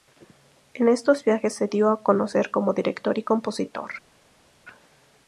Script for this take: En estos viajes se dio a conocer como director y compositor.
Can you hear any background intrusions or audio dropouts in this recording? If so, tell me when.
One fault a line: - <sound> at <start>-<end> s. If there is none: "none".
none